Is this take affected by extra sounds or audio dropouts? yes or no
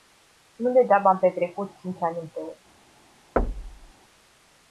yes